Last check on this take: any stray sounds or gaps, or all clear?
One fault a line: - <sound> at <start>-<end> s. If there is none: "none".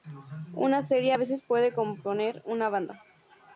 none